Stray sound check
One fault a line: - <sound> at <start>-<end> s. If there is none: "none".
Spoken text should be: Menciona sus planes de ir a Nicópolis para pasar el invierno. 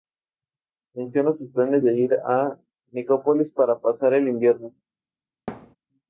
- thud at 5.5-5.8 s